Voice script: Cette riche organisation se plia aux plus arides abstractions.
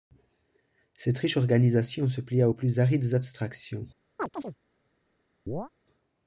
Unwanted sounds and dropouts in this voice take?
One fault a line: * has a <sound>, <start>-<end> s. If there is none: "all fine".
* has a chirp, 4.2-4.6 s
* has a chirp, 5.5-5.7 s